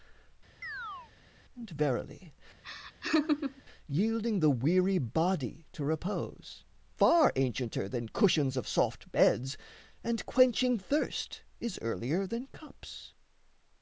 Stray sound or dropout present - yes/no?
yes